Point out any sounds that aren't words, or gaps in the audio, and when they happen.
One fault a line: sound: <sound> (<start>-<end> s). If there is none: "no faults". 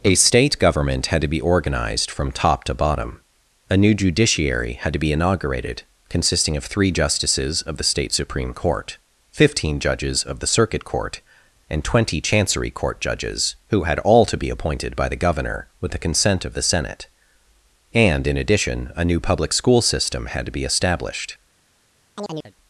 sound: chirp (22.2-22.5 s)